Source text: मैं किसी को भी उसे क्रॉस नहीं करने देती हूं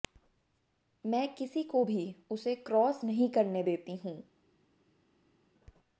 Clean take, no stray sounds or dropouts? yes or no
yes